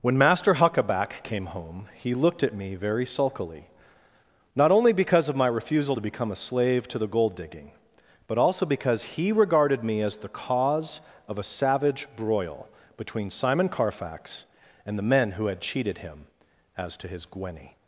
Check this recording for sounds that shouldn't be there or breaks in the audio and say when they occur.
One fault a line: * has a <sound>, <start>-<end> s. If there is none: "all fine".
all fine